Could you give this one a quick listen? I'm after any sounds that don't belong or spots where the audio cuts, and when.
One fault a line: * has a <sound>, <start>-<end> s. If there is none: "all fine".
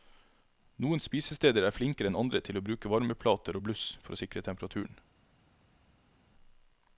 all fine